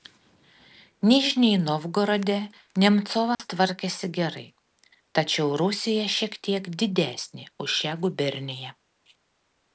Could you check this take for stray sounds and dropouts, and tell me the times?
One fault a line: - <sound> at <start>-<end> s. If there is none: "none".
- dropout at 3.3-3.4 s